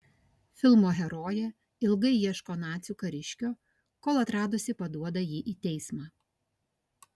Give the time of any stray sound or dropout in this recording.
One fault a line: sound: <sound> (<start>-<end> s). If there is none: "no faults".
no faults